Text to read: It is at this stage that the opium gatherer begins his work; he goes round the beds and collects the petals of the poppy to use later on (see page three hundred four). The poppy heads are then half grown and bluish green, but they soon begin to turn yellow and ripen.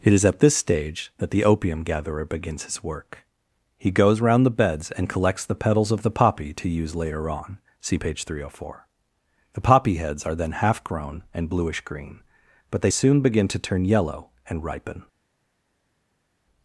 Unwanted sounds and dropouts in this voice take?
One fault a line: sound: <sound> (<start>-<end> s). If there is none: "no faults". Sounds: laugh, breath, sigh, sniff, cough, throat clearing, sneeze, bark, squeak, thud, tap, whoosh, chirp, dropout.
no faults